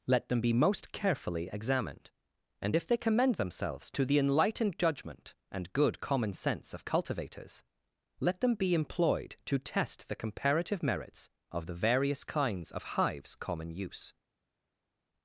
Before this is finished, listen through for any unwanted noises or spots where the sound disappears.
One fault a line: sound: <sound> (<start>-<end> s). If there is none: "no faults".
no faults